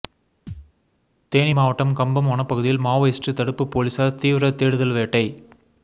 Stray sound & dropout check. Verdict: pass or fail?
fail